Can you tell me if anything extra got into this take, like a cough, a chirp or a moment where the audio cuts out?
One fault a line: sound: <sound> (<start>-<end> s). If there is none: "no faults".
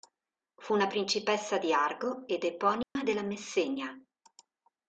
sound: dropout (2.8-3.0 s)